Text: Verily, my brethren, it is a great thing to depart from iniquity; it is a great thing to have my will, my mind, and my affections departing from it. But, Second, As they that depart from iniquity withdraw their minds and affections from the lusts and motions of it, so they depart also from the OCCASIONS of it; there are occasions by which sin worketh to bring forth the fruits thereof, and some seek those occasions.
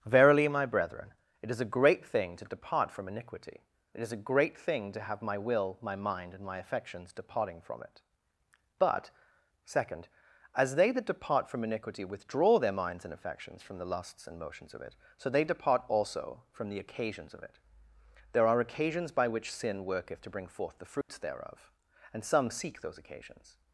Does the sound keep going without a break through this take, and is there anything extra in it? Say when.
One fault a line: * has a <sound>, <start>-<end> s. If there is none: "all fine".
* has a dropout, 21.0-21.1 s